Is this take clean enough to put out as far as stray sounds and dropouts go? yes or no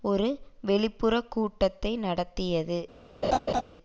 no